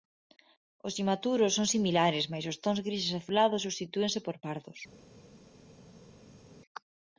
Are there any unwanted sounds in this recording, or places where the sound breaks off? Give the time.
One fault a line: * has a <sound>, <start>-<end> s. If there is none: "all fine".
all fine